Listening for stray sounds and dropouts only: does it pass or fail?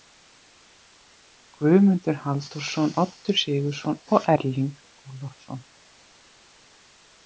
pass